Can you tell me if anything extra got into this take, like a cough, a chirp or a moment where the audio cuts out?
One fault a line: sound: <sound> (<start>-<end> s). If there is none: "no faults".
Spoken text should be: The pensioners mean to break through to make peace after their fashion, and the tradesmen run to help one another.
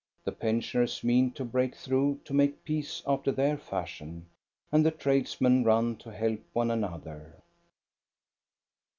no faults